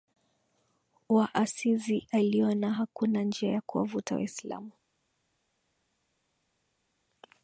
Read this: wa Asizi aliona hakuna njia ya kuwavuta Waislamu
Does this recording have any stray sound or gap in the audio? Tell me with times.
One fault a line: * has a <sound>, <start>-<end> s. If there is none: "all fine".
all fine